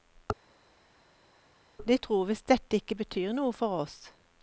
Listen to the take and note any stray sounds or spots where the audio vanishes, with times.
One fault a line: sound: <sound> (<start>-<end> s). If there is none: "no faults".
no faults